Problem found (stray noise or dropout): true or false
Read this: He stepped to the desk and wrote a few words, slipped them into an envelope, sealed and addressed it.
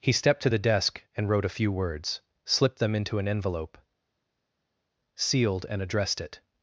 false